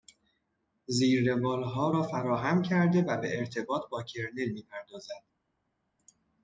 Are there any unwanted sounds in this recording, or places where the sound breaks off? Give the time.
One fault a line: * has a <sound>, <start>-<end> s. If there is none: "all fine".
all fine